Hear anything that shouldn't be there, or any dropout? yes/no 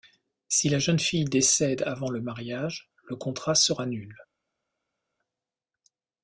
no